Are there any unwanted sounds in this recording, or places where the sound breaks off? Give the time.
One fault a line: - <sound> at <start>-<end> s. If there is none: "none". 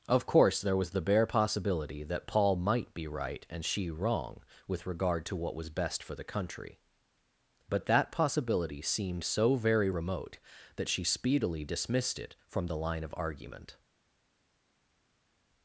none